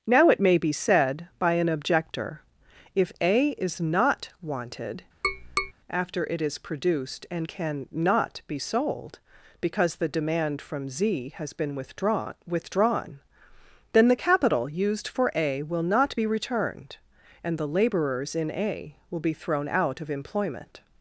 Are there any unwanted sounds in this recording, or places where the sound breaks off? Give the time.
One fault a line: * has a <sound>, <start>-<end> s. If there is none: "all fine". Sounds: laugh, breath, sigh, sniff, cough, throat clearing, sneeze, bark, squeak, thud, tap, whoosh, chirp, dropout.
* has a tap, 5.2-5.7 s